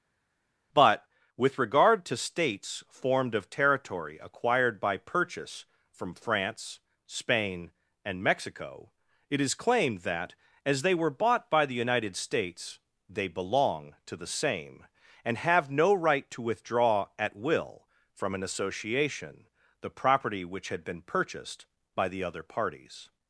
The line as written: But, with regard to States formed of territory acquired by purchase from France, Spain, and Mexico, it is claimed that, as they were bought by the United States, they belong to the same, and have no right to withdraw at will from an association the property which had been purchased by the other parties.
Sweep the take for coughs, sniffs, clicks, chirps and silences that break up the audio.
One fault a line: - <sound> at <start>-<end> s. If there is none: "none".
none